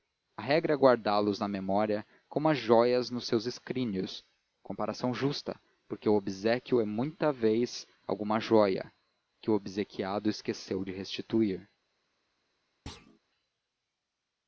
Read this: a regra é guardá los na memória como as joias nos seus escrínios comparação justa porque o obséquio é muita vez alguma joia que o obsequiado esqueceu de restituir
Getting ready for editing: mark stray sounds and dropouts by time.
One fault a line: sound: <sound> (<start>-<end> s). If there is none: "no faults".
sound: thud (12.9-13.2 s)